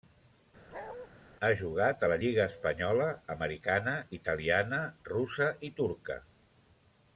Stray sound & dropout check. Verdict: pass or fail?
fail